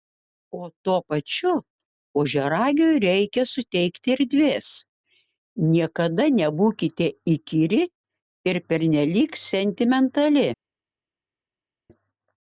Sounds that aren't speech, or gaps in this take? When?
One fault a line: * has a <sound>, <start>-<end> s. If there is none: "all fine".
all fine